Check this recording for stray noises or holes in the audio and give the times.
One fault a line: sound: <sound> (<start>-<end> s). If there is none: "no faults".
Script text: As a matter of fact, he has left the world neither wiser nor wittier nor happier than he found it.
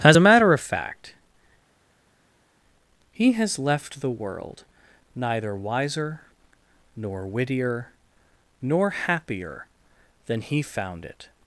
no faults